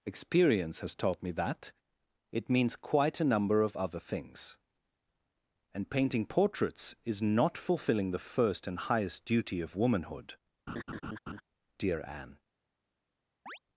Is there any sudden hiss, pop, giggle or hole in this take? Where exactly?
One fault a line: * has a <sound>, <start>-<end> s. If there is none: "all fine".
* has a laugh, 10.7-11.4 s
* has a chirp, 13.5-13.6 s